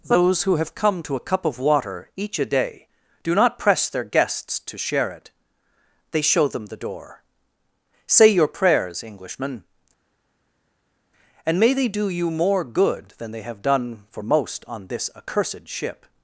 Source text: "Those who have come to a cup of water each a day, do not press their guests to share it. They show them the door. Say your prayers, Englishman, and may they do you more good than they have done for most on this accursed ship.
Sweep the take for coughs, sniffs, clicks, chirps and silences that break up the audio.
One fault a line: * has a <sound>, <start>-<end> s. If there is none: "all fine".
all fine